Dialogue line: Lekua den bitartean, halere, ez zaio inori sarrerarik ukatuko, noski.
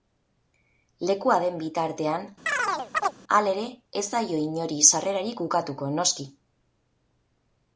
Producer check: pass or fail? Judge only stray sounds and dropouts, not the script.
fail